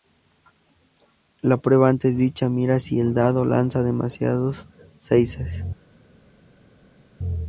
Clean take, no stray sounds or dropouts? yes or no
yes